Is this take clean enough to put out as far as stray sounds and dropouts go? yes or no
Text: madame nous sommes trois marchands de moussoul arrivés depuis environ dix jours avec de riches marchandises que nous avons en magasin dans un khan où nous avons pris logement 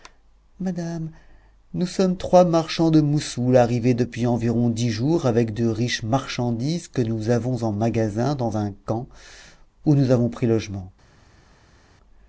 yes